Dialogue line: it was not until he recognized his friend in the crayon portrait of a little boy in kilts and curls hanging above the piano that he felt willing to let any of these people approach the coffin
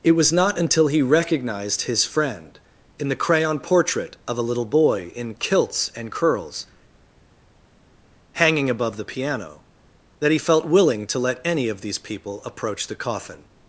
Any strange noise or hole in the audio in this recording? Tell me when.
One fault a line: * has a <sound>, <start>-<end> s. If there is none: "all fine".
all fine